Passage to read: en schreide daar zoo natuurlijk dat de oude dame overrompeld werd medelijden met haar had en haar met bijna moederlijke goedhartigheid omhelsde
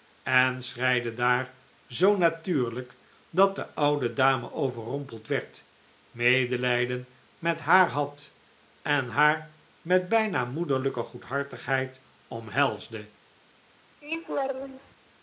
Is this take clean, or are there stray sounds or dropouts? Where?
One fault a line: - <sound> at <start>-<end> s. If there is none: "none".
- laugh at 14.0-15.0 s